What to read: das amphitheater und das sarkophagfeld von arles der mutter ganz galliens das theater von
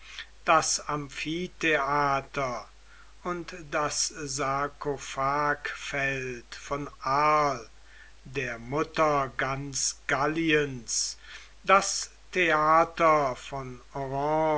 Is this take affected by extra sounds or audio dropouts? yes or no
no